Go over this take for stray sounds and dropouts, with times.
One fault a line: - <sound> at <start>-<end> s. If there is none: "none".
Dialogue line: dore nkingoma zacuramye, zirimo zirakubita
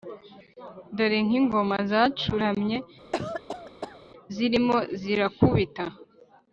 - cough at 3.1-4.0 s